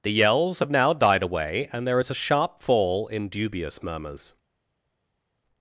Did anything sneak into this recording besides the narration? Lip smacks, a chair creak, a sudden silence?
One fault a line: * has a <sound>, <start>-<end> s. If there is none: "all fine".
all fine